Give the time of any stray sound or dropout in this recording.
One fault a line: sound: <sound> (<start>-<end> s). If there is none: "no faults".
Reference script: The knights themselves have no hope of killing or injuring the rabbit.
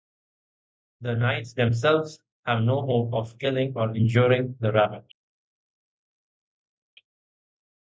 no faults